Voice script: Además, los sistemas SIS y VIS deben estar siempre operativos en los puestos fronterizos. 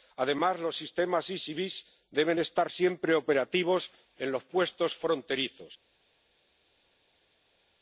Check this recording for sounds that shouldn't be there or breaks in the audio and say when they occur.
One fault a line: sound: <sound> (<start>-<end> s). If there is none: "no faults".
no faults